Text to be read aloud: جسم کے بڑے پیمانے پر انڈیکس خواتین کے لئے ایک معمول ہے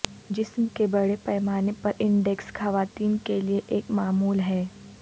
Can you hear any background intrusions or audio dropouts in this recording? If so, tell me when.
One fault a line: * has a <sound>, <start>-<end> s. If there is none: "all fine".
all fine